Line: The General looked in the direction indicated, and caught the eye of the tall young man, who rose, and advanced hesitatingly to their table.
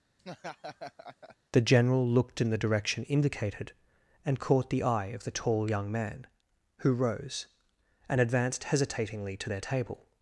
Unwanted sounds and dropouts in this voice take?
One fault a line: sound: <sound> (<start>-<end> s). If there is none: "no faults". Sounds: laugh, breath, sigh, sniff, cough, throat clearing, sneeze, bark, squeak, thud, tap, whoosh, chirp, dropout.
sound: laugh (0.2-1.4 s)